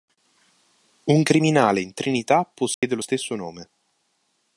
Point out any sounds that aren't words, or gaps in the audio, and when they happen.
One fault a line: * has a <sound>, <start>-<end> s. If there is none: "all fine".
* has a dropout, 2.7-2.8 s